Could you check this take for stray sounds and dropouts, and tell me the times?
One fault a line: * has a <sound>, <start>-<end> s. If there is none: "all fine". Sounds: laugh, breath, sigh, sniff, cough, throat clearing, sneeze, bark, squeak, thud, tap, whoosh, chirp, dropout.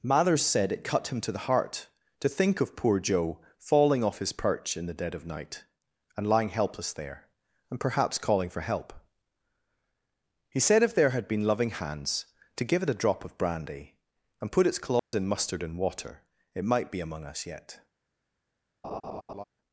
* has a dropout, 15.0-15.1 s
* has a laugh, 18.8-19.4 s